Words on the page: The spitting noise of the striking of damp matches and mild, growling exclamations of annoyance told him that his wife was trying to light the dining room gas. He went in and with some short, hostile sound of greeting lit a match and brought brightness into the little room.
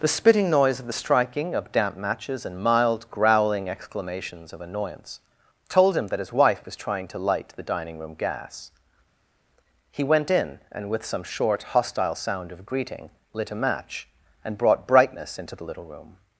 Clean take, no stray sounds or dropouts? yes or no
yes